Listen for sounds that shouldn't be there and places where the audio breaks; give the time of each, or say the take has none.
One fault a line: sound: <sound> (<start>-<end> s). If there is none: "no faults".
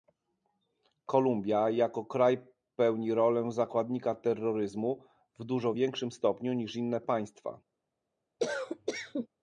sound: cough (8.4-9.3 s)